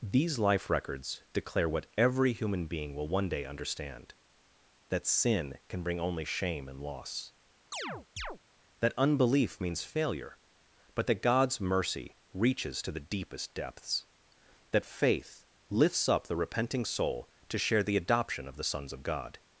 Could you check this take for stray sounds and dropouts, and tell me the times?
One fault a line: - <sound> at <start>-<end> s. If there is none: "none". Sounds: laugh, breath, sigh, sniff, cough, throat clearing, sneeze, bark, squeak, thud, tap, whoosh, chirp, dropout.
- chirp at 7.7-8.4 s